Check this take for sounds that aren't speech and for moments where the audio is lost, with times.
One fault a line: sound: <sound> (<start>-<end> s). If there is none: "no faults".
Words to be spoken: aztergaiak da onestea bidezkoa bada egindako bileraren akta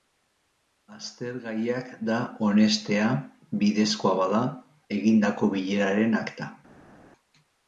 no faults